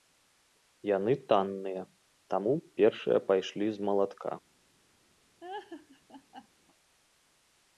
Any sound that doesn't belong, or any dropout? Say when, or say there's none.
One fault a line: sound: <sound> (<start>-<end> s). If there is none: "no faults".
sound: laugh (5.4-6.5 s)